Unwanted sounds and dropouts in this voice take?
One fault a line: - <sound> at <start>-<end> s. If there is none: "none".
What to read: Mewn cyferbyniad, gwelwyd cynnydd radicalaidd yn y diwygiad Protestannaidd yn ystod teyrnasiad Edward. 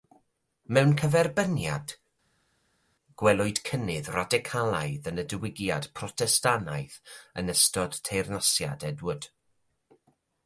none